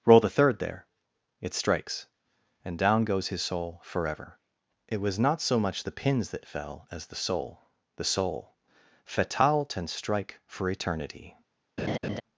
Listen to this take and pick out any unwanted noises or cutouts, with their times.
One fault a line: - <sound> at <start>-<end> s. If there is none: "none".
- laugh at 11.8-12.2 s